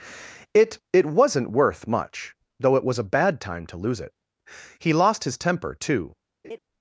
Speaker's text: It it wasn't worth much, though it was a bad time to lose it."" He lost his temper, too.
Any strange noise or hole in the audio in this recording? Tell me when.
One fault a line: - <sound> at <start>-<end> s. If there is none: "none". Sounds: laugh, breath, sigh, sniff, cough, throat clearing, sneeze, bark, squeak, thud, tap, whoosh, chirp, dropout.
- laugh at 6.4-6.6 s